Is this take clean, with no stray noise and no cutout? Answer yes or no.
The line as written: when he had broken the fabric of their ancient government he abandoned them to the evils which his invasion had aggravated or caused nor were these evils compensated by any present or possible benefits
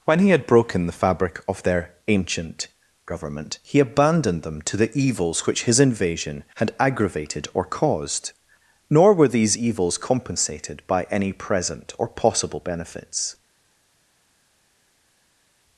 yes